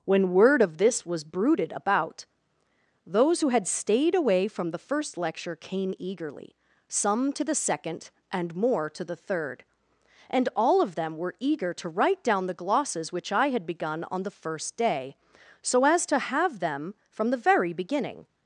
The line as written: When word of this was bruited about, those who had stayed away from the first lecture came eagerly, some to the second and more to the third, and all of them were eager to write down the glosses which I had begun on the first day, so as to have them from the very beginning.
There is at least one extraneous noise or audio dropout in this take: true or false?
false